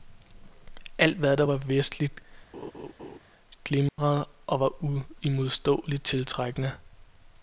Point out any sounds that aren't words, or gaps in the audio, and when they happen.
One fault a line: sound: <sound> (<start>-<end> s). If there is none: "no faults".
sound: laugh (2.5-3.2 s)
sound: dropout (3.9-4.0 s)